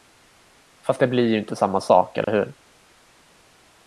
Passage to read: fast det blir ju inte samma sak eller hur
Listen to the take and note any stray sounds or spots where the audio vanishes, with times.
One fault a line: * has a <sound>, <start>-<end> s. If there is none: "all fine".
* has a dropout, 2.2-2.3 s